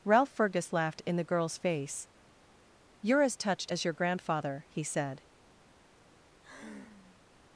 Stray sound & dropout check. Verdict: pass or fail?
fail